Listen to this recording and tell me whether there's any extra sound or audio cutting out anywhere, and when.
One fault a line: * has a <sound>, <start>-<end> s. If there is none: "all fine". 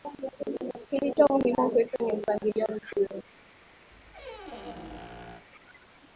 * has a squeak, 3.9-5.5 s